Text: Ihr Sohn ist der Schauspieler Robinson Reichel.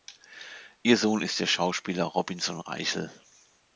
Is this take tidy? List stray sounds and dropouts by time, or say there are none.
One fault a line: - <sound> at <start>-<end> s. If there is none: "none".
none